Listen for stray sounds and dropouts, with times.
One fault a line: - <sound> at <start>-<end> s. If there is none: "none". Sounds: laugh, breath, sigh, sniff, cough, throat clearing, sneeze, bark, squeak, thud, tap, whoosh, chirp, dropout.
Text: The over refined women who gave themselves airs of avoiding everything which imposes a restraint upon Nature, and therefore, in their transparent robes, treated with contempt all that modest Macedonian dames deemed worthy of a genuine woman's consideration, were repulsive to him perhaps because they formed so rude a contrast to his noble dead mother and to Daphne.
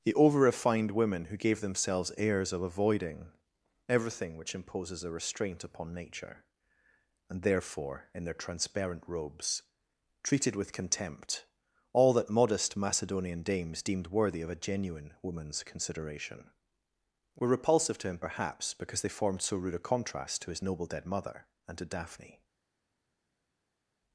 none